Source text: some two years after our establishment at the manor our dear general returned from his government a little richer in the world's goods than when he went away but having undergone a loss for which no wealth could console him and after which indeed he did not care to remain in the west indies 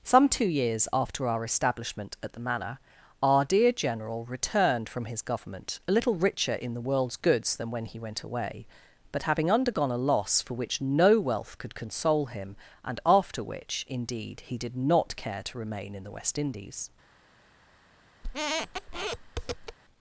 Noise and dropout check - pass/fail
fail